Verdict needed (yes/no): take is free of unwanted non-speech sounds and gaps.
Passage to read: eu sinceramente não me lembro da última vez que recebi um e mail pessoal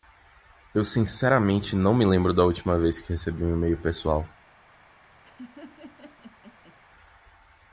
no